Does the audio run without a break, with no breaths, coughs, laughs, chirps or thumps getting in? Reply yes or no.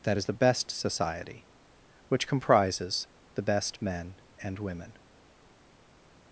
yes